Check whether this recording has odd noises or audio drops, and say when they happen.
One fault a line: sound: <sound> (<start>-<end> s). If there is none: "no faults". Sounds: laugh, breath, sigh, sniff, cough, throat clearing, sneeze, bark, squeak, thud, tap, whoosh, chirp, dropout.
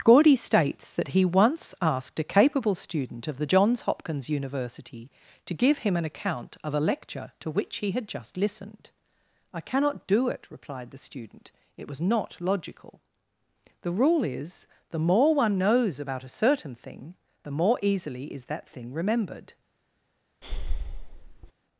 sound: breath (20.4-21.5 s)